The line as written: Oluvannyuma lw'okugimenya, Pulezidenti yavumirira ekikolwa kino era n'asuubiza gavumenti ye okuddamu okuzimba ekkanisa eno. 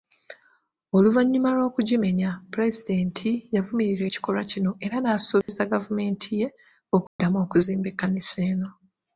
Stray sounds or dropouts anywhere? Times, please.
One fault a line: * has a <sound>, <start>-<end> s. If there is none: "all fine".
* has a dropout, 5.4-5.5 s
* has a dropout, 7.1-7.2 s